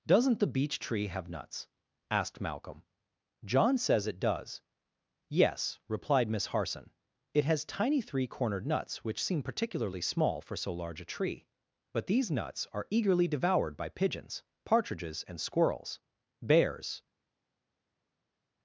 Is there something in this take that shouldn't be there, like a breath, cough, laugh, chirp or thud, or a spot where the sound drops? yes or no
no